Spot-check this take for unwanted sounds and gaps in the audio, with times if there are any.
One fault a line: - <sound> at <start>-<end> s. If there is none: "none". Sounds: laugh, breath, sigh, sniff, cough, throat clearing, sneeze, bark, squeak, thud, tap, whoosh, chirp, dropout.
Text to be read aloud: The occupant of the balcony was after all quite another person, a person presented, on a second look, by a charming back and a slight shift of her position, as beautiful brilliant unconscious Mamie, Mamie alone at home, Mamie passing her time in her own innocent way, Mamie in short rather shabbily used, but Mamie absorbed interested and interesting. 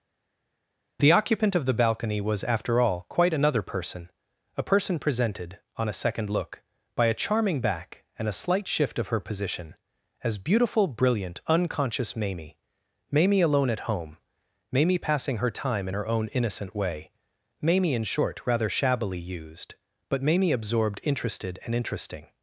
none